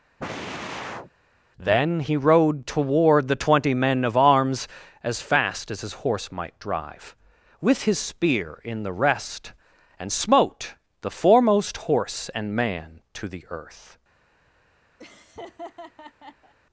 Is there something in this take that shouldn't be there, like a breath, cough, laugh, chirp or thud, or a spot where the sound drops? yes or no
yes